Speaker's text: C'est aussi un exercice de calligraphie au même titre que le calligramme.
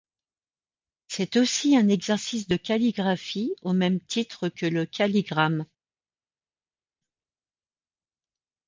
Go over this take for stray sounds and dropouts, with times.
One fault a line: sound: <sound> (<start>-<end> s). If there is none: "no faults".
no faults